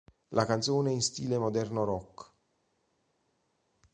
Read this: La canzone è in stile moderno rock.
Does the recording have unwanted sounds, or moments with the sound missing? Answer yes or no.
no